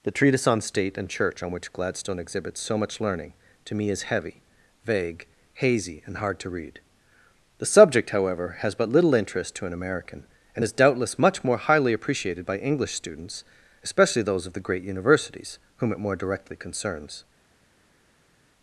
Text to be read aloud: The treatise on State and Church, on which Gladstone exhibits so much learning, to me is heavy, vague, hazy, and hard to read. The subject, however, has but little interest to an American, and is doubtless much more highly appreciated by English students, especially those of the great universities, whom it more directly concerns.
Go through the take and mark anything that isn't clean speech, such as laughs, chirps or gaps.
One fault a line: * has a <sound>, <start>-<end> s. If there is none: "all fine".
all fine